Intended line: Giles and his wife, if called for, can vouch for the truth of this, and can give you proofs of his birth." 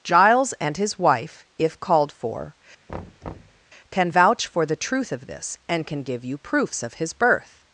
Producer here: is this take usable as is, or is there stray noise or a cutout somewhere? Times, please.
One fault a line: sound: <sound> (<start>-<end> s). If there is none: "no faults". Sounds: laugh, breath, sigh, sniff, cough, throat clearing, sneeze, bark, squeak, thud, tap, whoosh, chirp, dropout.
sound: thud (2.9-3.6 s)